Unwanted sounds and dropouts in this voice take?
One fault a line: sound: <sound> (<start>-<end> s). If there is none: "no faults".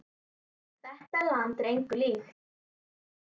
no faults